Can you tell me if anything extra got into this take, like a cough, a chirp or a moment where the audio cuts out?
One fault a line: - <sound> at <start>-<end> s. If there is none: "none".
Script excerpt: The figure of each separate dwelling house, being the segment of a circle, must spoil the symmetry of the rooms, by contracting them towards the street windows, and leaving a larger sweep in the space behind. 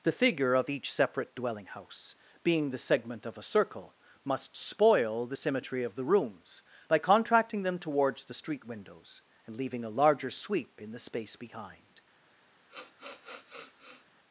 - sniff at 12.7-14.1 s